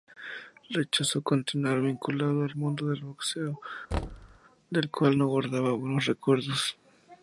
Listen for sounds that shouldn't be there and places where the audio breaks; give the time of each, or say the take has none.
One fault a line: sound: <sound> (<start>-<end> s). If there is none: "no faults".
sound: thud (3.9-4.4 s)